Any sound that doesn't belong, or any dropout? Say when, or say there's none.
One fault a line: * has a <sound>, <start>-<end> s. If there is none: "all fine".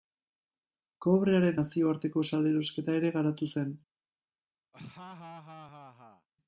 * has a laugh, 4.7-6.3 s